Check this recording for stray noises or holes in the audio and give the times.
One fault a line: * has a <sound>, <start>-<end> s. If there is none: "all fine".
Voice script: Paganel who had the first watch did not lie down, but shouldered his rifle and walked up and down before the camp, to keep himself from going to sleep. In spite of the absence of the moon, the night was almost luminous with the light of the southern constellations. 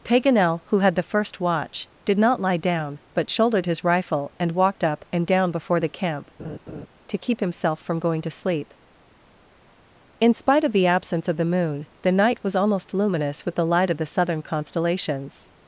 * has a laugh, 6.4-6.9 s